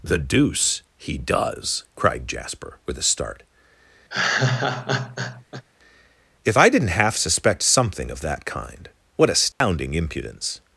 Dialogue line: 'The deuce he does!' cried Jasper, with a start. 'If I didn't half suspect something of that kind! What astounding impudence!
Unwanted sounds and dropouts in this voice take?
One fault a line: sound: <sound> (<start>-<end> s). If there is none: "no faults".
sound: laugh (4.1-5.6 s)
sound: dropout (9.5-9.6 s)